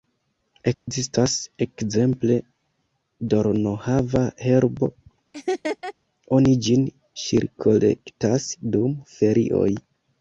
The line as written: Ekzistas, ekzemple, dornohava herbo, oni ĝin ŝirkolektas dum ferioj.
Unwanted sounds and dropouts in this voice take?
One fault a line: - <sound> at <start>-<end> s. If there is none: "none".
- dropout at 0.7-0.9 s
- laugh at 5.3-5.9 s